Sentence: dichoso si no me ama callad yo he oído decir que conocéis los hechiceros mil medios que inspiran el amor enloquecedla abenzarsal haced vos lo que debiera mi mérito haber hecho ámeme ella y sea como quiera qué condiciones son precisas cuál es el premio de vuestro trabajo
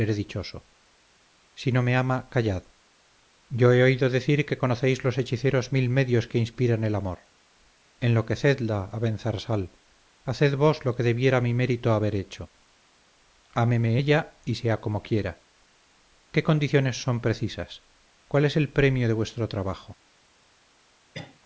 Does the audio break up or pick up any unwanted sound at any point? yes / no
yes